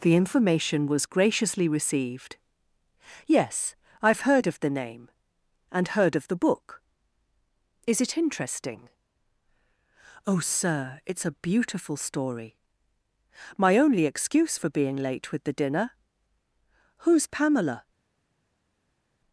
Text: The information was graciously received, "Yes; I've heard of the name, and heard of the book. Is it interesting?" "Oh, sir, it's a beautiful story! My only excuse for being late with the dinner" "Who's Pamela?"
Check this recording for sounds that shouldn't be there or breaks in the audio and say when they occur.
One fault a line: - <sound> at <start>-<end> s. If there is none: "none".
none